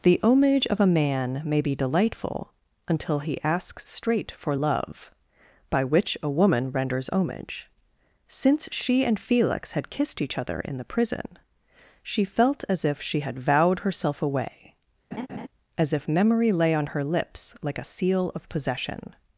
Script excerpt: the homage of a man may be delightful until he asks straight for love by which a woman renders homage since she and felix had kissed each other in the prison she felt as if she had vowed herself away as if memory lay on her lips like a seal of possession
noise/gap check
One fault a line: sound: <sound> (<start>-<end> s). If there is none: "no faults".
sound: laugh (15.1-15.5 s)